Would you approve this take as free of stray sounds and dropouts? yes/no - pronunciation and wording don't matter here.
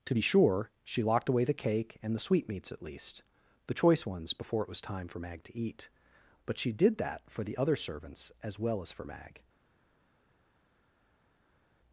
yes